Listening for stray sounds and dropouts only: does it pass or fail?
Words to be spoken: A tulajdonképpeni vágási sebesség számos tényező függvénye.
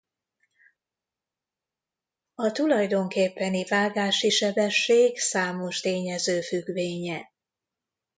pass